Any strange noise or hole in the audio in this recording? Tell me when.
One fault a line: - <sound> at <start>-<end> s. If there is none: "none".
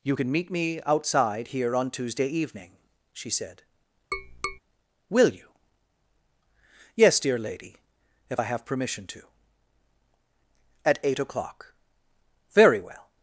- tap at 4.1-4.6 s